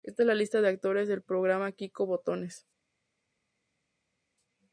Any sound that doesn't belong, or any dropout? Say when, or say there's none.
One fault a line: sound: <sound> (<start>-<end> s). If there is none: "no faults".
no faults